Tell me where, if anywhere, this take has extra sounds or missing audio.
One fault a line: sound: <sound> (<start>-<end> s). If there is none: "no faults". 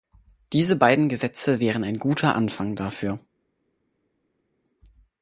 no faults